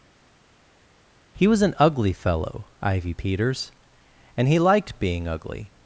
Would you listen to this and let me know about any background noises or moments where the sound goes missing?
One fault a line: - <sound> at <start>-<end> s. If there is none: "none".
none